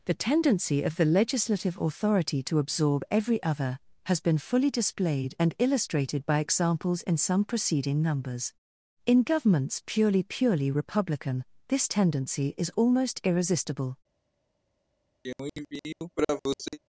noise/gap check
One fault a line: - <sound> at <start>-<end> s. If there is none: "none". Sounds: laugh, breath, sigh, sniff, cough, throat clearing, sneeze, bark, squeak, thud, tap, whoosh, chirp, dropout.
- throat clearing at 15.2-16.8 s